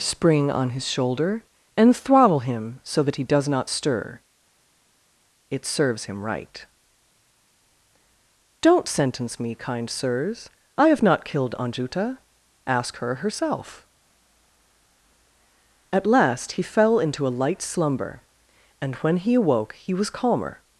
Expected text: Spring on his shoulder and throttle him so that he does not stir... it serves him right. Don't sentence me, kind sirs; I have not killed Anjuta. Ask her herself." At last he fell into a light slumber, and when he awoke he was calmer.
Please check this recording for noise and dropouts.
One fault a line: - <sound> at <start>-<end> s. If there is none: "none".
none